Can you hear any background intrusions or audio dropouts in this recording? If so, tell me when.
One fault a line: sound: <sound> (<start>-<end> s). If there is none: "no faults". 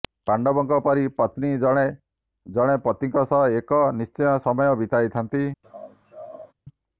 sound: laugh (5.6-6.5 s)